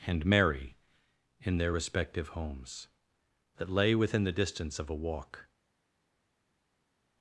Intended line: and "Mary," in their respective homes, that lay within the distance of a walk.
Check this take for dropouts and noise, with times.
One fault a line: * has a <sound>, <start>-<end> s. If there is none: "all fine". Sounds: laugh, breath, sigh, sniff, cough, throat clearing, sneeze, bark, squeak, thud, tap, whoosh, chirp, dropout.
all fine